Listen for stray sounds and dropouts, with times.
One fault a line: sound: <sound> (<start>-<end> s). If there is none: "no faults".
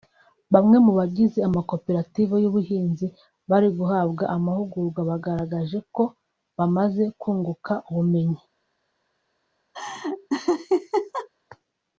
sound: laugh (9.7-11.3 s)